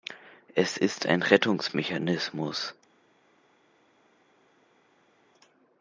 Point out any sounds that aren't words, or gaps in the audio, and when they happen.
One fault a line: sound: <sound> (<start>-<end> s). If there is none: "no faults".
no faults